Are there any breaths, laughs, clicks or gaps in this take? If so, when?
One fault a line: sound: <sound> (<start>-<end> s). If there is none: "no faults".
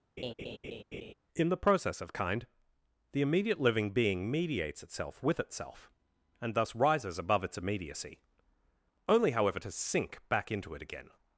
sound: laugh (0.2-1.1 s)